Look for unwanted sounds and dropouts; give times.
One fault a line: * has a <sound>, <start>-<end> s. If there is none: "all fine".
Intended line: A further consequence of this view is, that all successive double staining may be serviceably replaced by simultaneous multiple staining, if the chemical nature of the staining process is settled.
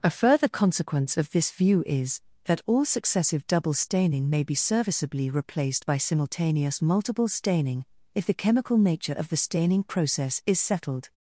all fine